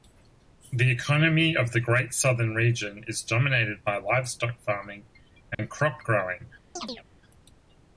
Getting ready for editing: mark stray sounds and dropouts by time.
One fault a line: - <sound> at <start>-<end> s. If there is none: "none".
- dropout at 5.5-5.6 s
- chirp at 6.8-7.0 s